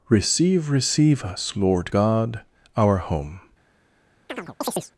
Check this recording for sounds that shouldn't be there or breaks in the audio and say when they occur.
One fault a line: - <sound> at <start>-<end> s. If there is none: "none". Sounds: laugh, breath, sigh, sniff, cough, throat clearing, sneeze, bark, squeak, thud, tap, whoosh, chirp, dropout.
- chirp at 4.3-4.9 s